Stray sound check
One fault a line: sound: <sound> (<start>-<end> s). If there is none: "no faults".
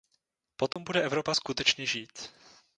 sound: dropout (0.7-0.8 s)